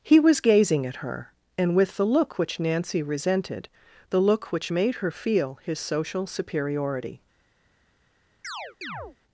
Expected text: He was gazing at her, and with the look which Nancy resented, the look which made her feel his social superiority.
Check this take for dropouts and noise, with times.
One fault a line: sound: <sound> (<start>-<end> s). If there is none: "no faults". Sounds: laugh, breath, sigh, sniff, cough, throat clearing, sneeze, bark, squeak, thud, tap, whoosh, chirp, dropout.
sound: chirp (8.4-9.2 s)